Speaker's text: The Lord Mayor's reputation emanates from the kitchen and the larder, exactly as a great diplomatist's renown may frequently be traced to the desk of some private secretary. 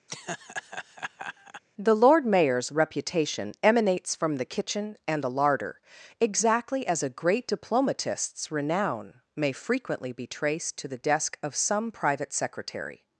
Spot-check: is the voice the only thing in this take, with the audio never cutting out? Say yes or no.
no